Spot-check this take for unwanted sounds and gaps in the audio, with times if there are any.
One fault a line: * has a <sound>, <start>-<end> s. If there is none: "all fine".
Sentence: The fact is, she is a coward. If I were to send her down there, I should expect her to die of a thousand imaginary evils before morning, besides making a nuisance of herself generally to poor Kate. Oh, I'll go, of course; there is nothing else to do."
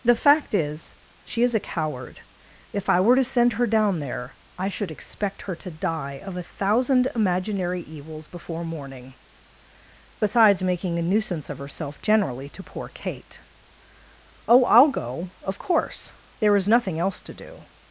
all fine